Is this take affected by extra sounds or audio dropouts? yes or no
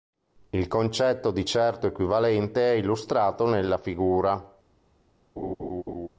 yes